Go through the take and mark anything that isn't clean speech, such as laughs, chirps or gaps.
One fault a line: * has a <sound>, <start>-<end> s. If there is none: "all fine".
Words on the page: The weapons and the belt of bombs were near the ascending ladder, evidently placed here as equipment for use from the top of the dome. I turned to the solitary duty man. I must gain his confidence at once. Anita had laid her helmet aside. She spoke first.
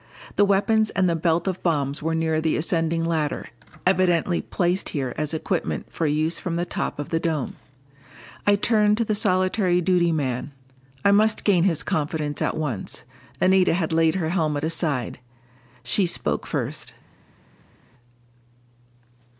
all fine